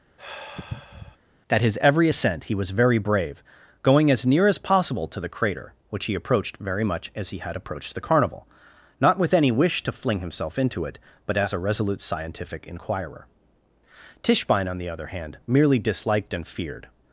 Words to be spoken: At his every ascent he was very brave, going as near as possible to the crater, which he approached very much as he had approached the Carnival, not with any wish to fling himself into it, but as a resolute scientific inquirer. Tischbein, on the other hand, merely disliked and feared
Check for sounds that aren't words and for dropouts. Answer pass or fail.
fail